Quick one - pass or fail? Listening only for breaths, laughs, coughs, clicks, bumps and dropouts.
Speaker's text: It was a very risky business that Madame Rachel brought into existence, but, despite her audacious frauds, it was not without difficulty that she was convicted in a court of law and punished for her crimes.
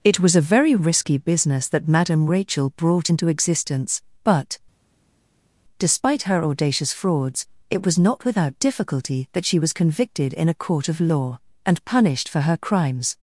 pass